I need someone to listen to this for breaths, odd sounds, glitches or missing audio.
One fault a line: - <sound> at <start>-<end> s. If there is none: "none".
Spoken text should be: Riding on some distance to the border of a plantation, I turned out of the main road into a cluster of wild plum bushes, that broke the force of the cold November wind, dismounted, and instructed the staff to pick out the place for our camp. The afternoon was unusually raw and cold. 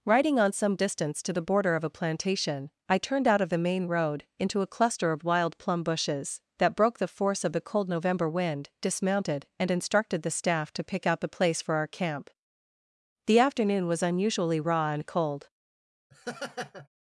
- laugh at 16.1-16.9 s